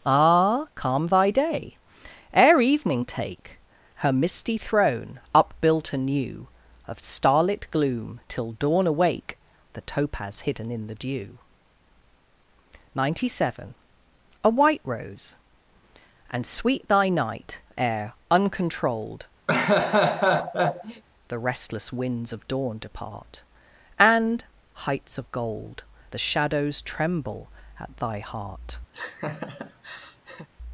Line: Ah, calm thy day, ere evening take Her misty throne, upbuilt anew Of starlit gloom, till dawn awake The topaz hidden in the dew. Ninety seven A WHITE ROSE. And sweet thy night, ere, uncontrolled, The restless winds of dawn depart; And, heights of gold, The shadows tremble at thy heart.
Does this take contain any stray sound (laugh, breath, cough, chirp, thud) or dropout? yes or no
yes